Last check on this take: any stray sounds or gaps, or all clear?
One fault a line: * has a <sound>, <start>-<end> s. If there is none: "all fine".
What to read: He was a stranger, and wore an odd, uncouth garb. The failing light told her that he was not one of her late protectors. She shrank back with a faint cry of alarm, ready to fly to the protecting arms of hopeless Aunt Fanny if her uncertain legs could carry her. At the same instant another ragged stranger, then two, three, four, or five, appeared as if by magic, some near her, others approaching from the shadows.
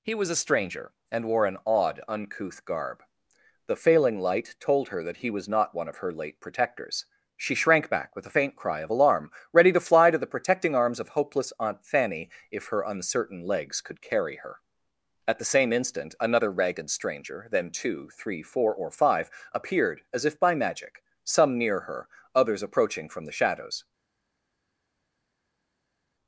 all fine